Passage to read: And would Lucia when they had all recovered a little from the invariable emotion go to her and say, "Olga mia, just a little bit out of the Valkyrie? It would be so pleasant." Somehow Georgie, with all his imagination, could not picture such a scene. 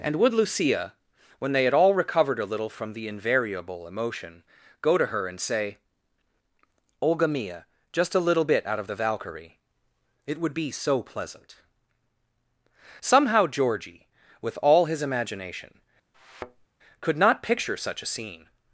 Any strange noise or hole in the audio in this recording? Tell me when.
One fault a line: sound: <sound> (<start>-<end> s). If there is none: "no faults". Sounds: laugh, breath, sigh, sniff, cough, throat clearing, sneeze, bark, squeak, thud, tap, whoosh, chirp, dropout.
sound: thud (16.1-16.7 s)